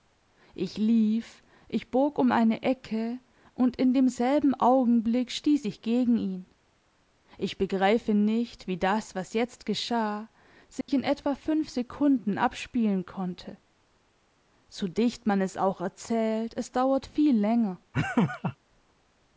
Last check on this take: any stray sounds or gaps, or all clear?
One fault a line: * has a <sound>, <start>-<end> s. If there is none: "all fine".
* has a dropout, 10.8-10.9 s
* has a laugh, 17.9-18.6 s